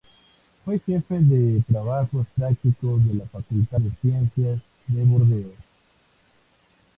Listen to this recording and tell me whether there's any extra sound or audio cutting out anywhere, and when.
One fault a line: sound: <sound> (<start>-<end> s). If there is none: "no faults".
no faults